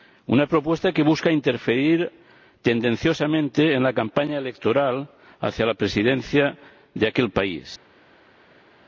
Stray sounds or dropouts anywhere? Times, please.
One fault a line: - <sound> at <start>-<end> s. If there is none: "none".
none